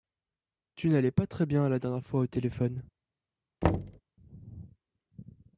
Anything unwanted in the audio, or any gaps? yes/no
yes